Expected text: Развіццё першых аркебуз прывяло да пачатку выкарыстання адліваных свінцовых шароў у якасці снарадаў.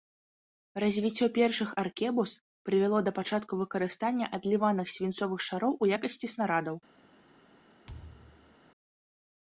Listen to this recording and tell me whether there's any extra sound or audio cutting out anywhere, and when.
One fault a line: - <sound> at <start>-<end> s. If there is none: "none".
- thud at 7.9-8.6 s